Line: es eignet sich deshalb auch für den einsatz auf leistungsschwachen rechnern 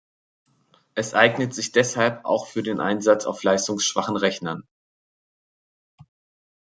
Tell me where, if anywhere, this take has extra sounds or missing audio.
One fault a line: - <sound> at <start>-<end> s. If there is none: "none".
none